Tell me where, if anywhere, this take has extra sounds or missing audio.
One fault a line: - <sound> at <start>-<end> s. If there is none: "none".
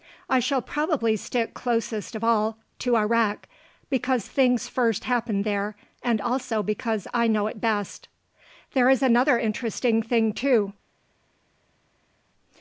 none